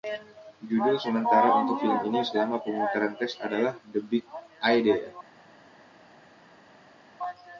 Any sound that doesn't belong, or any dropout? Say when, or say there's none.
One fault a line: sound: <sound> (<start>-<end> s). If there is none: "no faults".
no faults